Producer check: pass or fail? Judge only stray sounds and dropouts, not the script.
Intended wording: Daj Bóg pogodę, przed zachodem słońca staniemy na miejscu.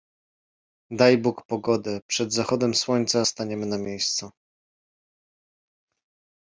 pass